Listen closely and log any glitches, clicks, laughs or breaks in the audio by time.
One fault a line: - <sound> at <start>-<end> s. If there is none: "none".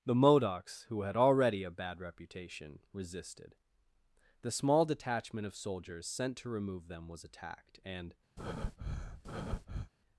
- breath at 8.4-9.9 s